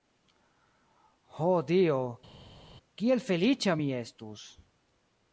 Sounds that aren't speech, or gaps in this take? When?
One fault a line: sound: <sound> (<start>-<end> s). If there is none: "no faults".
no faults